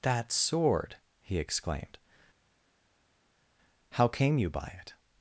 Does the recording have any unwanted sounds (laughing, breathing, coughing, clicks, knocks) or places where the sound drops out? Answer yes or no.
no